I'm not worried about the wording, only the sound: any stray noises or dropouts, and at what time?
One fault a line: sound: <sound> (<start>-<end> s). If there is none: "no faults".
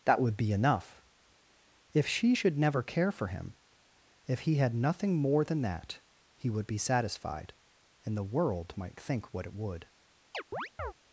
sound: chirp (10.3-10.9 s)